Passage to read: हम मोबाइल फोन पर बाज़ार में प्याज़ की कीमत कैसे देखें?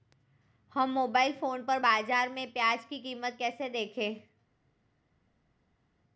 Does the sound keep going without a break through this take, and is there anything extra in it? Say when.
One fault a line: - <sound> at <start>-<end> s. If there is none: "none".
none